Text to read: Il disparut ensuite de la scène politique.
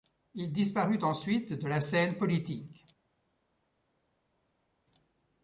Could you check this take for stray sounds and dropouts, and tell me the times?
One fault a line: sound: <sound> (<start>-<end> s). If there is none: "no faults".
no faults